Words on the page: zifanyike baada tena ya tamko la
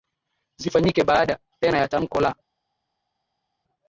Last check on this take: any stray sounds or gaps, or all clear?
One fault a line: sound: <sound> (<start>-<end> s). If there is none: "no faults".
no faults